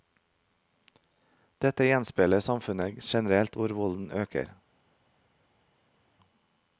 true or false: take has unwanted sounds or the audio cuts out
false